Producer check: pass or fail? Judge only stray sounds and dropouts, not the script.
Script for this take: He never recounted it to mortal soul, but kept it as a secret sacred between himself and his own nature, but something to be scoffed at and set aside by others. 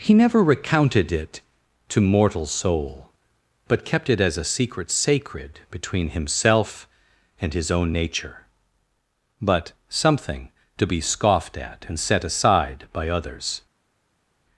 pass